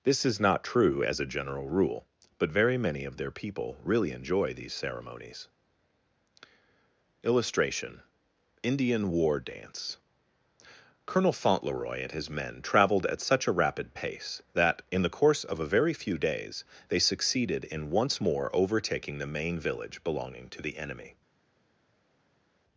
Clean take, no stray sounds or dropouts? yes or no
yes